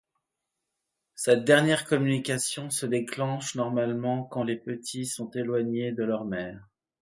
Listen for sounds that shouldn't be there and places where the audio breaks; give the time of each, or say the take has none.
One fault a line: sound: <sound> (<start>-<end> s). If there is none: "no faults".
no faults